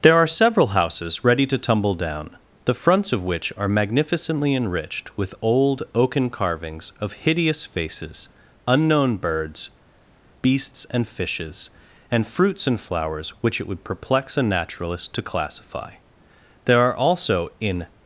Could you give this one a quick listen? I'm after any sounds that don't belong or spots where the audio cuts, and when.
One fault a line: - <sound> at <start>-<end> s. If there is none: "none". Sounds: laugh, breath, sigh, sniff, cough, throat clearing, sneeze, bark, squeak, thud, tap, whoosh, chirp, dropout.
none